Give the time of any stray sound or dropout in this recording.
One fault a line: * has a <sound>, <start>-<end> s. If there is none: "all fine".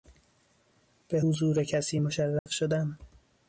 * has a dropout, 2.4-2.5 s